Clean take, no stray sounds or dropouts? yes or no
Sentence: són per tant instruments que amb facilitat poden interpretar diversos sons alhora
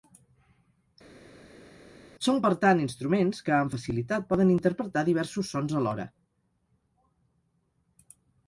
yes